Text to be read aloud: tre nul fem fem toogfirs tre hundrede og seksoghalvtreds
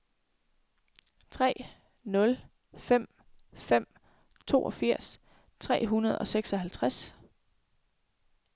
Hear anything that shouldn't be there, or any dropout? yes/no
no